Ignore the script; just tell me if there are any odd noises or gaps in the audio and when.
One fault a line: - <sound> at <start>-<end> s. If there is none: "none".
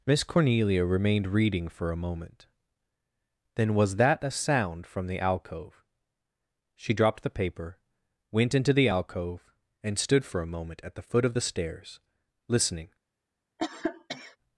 - cough at 13.6-14.4 s